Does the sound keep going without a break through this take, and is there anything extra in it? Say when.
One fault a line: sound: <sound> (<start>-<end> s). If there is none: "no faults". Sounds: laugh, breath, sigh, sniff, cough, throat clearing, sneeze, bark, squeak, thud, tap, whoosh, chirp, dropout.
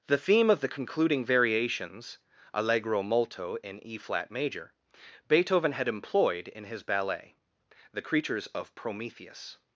no faults